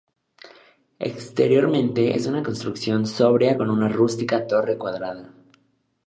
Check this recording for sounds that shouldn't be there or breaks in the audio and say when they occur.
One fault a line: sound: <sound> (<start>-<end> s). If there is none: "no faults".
no faults